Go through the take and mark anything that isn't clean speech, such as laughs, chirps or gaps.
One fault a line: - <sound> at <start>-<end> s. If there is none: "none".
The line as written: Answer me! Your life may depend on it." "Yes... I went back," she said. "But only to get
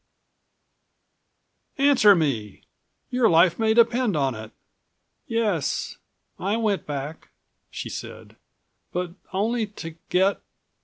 none